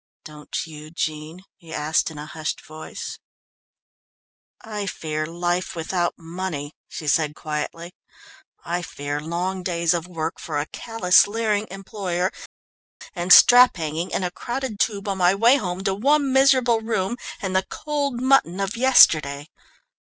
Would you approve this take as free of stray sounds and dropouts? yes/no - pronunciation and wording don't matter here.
yes